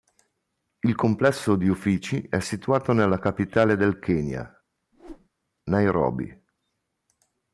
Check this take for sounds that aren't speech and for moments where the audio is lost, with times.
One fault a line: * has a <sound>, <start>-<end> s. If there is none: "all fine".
* has a whoosh, 4.9-5.3 s